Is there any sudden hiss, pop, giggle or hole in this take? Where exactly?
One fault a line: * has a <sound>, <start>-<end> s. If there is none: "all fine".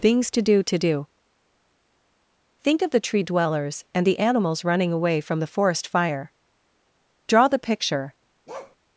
* has a bark, 8.5-8.8 s